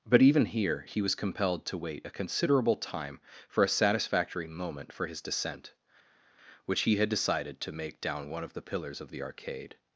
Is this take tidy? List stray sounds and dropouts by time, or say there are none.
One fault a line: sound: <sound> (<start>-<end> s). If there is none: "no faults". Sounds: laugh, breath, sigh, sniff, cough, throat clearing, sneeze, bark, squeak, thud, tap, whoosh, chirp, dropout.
no faults